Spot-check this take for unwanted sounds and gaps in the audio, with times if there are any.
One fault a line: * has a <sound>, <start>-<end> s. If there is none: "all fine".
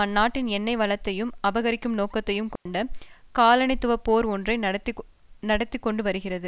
* has a dropout, 2.6-2.7 s